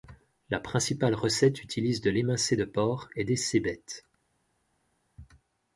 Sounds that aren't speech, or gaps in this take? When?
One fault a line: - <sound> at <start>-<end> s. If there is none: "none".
none